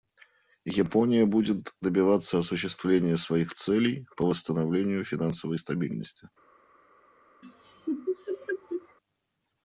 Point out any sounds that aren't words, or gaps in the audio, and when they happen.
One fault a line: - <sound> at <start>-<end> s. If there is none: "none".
- laugh at 7.4-9.0 s